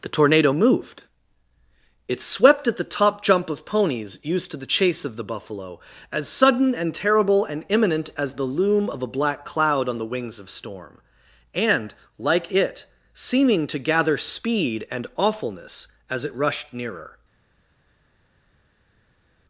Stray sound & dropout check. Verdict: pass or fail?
pass